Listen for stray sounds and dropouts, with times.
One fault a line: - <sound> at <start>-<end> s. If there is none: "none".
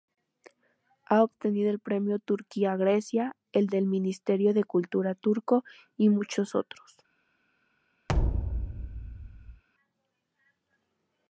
- thud at 8.1-9.6 s